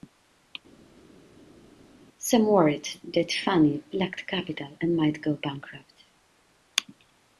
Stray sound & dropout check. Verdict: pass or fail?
pass